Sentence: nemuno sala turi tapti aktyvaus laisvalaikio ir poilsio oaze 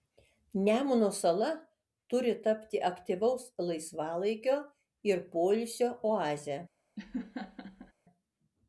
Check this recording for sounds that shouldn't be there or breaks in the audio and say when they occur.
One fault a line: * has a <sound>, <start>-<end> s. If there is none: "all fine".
* has a laugh, 7.0-7.9 s